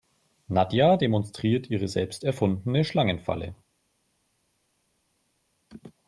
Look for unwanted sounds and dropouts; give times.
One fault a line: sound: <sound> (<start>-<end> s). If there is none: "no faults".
no faults